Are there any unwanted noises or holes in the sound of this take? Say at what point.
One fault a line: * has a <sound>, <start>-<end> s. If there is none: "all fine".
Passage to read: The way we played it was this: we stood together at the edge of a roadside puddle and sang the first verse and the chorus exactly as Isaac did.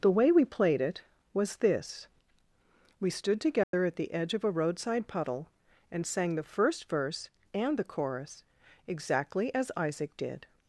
* has a dropout, 3.6-3.7 s